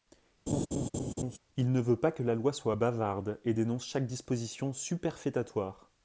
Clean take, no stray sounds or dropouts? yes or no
no